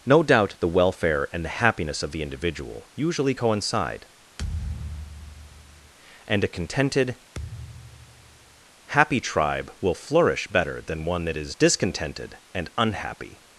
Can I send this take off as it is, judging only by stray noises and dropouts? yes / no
no